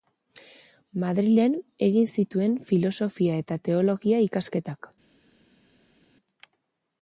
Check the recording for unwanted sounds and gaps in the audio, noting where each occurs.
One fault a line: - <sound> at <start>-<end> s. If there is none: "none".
none